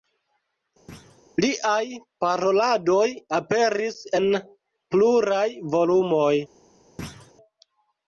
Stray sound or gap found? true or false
true